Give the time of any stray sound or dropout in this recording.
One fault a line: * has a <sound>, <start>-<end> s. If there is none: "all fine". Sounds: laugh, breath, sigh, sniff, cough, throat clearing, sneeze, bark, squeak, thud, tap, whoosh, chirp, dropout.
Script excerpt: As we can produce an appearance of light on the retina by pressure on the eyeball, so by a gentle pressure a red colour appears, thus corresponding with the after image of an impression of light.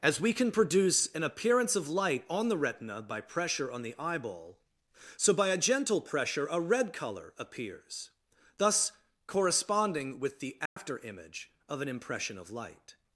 * has a dropout, 10.7-10.8 s